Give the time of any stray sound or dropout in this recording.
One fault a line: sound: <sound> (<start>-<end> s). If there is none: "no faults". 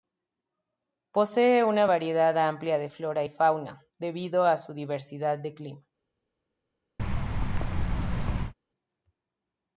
sound: thud (7.0-8.5 s)